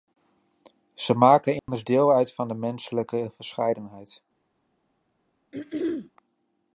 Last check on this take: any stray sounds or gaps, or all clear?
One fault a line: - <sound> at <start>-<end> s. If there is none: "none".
- dropout at 1.6-1.7 s
- throat clearing at 5.5-6.1 s